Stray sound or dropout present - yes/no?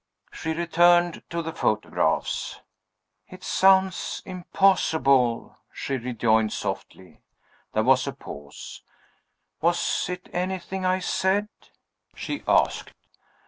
no